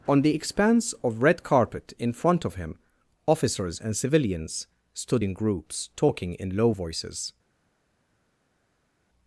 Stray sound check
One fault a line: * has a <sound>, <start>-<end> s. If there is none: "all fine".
all fine